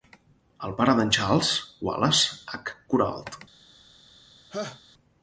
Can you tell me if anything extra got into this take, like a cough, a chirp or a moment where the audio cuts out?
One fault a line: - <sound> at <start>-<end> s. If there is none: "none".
- laugh at 4.5-4.8 s